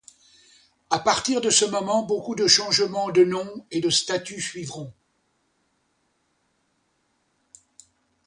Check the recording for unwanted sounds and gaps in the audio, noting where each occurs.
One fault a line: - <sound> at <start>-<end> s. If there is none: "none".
none